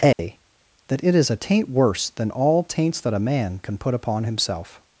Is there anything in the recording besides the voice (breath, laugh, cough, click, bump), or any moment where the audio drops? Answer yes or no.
yes